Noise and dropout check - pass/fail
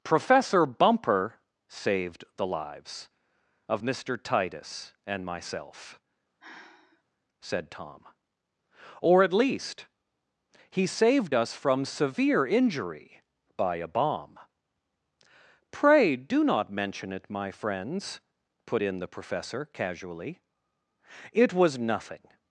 fail